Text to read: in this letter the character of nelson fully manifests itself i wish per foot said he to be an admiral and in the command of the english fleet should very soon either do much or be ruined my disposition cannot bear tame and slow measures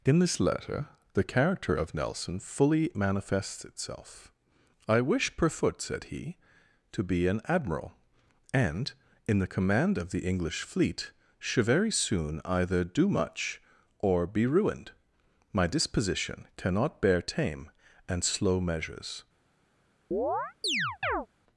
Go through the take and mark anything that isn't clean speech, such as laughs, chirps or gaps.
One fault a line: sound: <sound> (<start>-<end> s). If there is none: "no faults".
sound: chirp (20.1-21.3 s)